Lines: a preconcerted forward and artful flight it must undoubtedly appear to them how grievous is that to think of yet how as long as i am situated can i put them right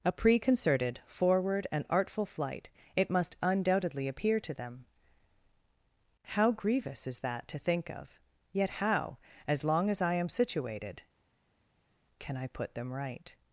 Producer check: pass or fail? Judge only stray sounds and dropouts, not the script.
pass